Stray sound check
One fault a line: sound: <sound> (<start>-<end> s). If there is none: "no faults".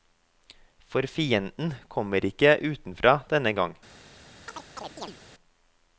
sound: chirp (4.5-5.2 s)